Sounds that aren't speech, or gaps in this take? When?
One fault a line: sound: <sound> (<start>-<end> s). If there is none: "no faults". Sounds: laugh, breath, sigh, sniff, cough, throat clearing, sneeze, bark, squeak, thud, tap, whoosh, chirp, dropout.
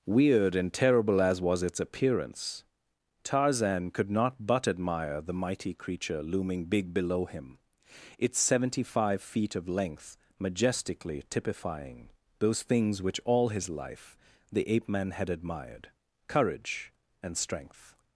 no faults